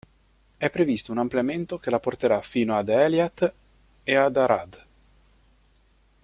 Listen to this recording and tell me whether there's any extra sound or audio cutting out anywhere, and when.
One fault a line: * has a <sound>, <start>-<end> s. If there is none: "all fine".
all fine